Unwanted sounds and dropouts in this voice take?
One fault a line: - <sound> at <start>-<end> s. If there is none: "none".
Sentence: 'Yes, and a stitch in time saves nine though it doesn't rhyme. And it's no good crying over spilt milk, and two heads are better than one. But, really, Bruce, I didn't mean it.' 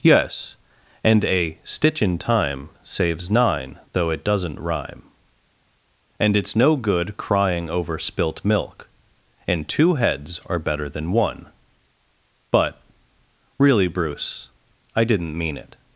none